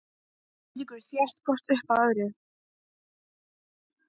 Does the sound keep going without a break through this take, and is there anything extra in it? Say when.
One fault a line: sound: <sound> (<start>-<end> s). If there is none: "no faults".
no faults